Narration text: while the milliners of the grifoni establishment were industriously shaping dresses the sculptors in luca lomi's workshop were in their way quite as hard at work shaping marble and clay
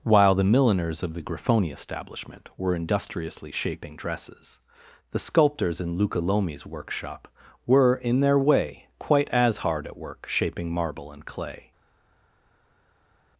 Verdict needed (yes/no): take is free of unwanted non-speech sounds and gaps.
yes